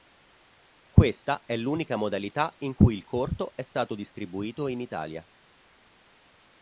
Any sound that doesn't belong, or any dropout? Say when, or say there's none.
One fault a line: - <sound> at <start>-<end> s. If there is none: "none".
none